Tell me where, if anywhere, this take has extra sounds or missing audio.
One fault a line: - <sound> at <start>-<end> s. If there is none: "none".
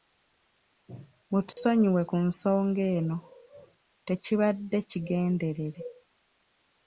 - dropout at 1.5-1.6 s